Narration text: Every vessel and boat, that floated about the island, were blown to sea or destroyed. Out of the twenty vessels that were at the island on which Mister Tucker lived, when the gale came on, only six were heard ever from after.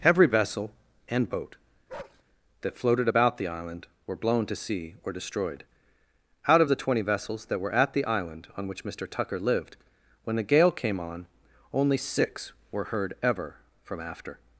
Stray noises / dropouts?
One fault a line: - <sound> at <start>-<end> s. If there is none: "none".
- bark at 1.9-2.2 s